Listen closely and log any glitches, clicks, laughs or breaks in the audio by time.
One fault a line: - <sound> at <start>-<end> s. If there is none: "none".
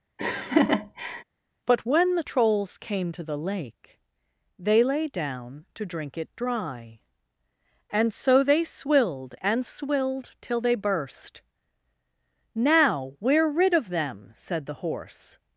- laugh at 0.2-1.2 s